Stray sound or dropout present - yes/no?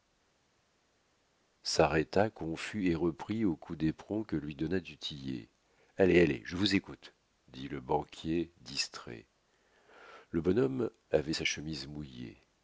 no